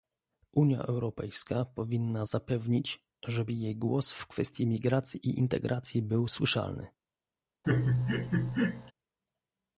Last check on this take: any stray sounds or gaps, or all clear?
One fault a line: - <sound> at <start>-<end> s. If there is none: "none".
- laugh at 7.6-8.9 s